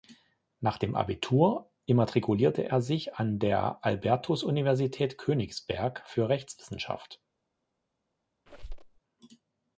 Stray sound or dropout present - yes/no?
yes